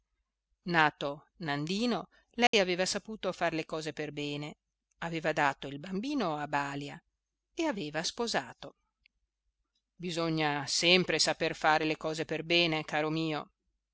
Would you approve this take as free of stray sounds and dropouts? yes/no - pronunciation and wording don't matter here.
no